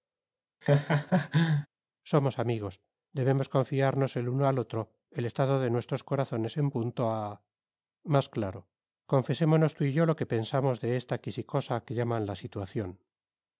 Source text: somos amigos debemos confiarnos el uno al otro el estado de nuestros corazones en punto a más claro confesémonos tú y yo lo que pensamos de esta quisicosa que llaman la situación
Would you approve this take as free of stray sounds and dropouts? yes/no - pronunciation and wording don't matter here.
no